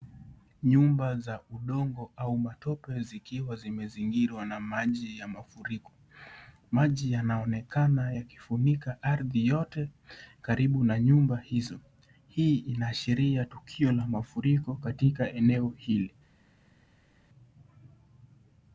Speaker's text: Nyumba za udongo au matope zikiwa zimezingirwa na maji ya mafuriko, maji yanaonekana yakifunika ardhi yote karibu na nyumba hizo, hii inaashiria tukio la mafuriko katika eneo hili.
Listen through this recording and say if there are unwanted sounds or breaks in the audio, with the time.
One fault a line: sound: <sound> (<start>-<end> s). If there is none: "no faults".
no faults